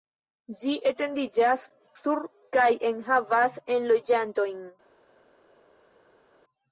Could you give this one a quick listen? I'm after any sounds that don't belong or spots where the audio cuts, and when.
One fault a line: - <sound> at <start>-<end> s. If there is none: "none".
none